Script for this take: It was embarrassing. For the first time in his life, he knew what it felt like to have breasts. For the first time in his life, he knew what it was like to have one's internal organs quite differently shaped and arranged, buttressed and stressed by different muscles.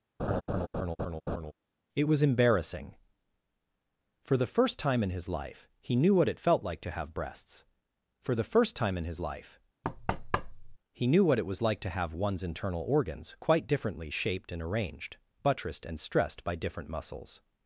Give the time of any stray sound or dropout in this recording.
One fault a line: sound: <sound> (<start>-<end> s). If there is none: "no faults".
sound: laugh (0.2-1.5 s)
sound: thud (9.8-10.8 s)